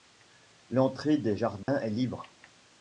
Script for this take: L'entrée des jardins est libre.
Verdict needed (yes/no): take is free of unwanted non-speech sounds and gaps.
no